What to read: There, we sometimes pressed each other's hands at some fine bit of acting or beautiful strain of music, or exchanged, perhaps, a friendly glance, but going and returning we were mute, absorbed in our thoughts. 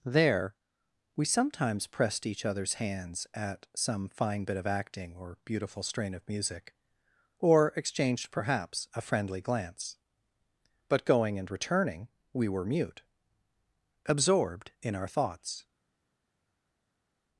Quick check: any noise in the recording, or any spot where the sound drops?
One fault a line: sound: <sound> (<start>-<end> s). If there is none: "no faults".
no faults